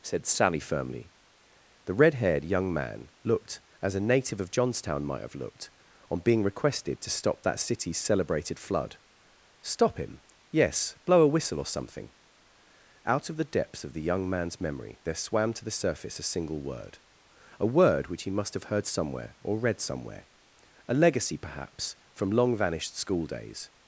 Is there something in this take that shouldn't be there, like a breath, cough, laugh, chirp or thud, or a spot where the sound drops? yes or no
no